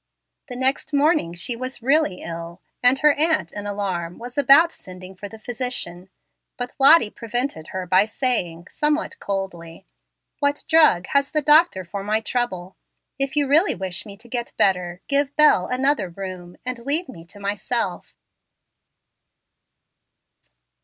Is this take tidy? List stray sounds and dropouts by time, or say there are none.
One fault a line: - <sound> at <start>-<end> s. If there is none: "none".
none